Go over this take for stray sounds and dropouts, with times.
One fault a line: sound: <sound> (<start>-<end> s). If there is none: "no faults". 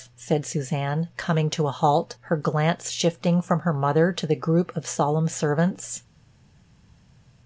no faults